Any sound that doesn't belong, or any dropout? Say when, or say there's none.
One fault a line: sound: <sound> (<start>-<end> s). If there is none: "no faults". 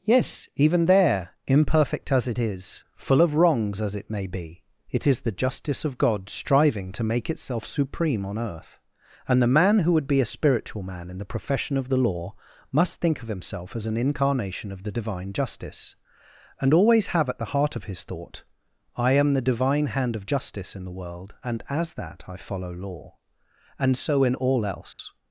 sound: dropout (24.9-25.0 s)